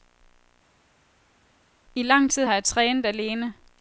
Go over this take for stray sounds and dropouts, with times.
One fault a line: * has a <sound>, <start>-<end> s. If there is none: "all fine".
all fine